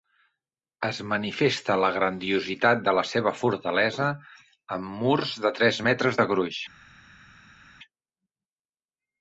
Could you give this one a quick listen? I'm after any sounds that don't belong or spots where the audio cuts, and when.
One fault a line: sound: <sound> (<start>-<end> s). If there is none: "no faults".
no faults